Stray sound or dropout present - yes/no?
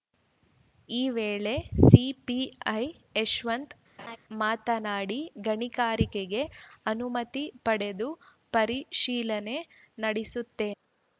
yes